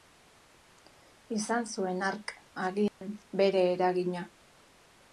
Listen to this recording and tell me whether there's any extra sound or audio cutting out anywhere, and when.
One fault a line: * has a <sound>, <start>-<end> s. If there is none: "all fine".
* has a dropout, 2.9-3.0 s